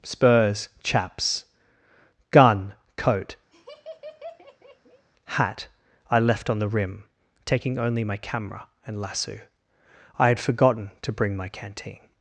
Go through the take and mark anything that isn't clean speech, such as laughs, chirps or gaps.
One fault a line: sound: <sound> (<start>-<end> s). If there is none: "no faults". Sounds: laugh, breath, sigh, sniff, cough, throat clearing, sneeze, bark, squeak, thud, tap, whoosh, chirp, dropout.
sound: laugh (3.5-5.1 s)